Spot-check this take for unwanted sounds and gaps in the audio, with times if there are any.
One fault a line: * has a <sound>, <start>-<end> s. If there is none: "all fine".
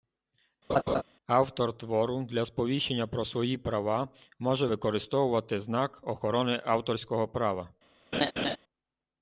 * has a laugh, 0.7-1.0 s
* has a laugh, 8.1-8.6 s